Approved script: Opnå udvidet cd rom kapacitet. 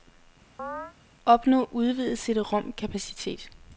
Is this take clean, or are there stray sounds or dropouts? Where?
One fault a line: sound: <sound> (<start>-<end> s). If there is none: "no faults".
sound: chirp (0.6-0.9 s)